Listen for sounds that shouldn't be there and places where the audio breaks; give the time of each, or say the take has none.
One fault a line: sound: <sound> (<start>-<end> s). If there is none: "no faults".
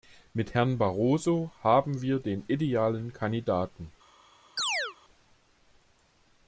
sound: chirp (4.6-5.0 s)